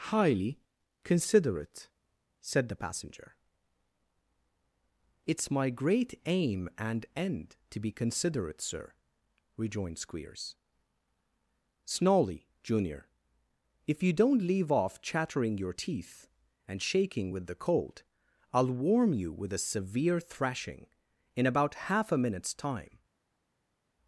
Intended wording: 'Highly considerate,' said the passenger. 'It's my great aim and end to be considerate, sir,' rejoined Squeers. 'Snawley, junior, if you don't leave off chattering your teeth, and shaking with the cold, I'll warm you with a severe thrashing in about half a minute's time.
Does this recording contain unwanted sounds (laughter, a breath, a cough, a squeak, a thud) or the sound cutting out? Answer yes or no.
no